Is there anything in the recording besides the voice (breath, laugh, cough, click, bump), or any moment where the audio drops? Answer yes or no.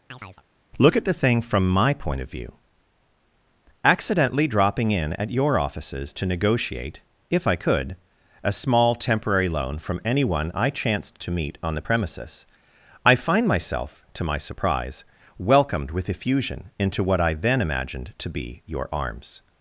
yes